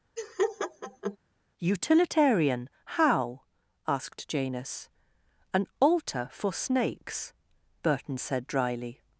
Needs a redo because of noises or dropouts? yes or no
yes